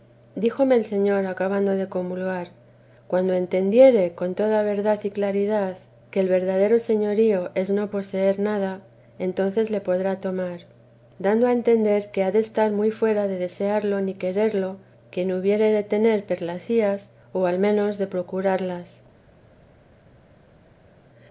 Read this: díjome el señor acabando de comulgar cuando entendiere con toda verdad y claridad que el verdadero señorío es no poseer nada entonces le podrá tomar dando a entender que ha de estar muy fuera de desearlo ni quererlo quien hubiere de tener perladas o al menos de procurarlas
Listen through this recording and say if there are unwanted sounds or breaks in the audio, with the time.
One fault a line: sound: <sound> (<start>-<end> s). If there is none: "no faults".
no faults